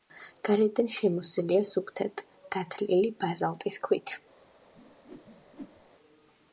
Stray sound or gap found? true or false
true